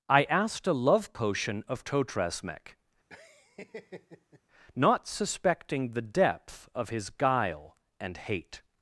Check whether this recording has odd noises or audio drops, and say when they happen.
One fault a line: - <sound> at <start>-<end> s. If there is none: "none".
- laugh at 3.1-4.4 s